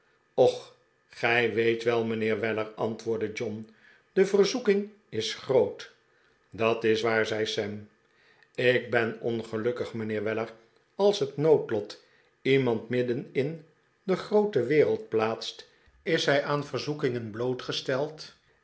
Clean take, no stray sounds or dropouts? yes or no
yes